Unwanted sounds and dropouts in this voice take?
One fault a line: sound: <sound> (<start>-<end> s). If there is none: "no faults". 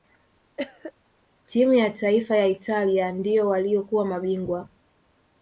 sound: cough (0.6-0.9 s)